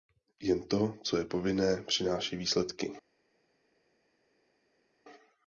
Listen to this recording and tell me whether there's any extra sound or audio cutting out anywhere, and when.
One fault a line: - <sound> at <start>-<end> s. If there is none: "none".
none